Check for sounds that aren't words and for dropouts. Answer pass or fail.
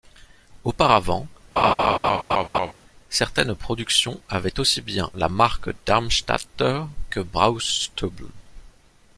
fail